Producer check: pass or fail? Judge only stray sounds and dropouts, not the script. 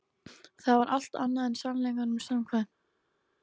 pass